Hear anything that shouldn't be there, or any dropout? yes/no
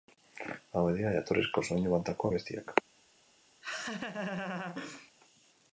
yes